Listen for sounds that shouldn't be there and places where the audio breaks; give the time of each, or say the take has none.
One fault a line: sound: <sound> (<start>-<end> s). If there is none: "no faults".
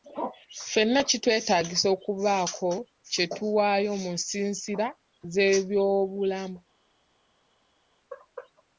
no faults